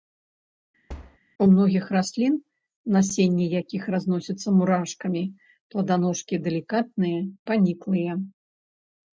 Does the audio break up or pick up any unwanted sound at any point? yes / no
yes